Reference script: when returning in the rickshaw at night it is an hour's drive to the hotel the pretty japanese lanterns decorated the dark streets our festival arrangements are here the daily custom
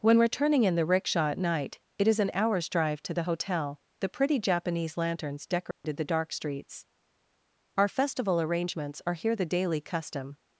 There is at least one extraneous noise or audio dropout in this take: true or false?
true